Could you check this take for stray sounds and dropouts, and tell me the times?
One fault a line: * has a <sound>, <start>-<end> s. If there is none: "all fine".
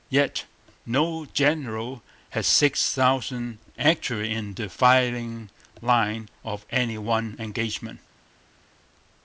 all fine